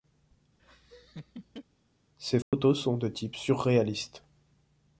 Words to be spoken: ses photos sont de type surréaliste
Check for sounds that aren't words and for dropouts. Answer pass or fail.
fail